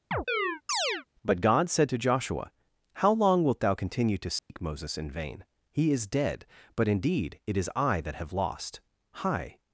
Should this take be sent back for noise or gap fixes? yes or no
yes